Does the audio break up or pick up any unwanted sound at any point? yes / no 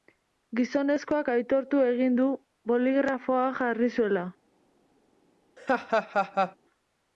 yes